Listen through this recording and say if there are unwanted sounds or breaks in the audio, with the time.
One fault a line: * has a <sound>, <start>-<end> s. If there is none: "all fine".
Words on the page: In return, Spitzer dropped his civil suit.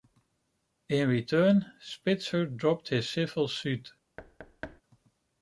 * has a thud, 4.2-4.8 s